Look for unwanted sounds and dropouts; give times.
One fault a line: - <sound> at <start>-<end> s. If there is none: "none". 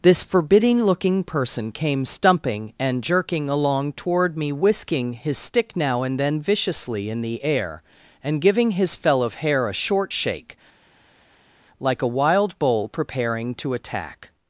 none